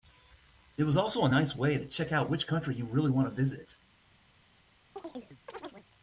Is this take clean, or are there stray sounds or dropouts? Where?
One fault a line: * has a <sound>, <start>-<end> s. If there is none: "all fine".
* has a chirp, 5.0-5.9 s